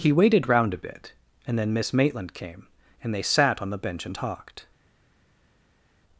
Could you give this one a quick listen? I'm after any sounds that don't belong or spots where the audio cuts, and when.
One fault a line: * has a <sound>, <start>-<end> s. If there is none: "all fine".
all fine